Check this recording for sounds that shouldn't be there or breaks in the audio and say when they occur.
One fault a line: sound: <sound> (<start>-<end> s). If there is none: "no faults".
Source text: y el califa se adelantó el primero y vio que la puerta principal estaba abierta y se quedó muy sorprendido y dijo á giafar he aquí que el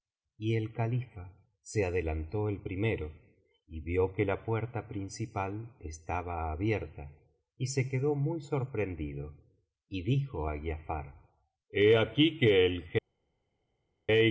no faults